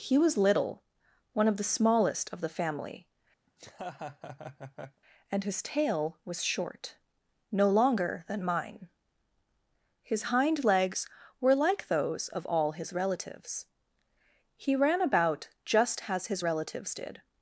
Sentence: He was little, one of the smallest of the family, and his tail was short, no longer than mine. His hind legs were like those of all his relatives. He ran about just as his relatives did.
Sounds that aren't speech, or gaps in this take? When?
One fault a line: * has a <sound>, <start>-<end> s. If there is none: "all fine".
* has a laugh, 3.5-5.0 s